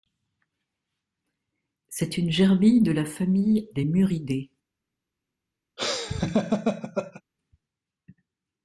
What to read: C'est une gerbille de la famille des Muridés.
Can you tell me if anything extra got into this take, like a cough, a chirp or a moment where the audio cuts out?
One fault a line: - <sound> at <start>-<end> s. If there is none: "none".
- laugh at 5.8-7.2 s